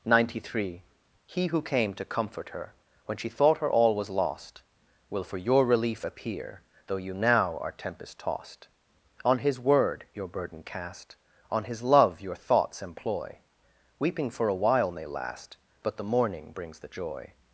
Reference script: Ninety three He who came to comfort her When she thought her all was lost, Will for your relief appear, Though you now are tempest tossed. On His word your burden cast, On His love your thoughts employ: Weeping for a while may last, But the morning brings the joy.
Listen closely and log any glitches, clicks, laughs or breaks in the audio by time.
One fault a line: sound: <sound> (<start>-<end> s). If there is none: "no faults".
no faults